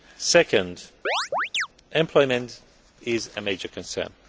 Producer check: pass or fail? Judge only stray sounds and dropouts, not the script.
fail